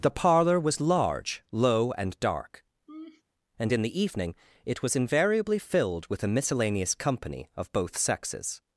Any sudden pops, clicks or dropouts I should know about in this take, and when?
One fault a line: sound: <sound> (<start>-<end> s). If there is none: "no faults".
sound: laugh (2.9-3.2 s)